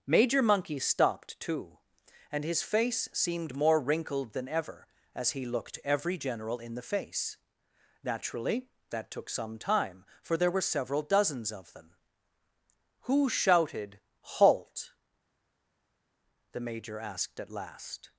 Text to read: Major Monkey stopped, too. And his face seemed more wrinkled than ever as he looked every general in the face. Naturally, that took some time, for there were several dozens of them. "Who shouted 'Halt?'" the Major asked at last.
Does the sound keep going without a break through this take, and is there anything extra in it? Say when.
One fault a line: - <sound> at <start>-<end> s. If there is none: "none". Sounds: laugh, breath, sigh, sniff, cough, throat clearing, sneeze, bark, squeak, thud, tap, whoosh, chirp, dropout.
none